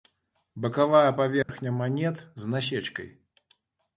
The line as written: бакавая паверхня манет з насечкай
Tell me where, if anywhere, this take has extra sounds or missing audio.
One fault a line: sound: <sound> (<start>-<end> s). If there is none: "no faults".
sound: dropout (1.4-1.5 s)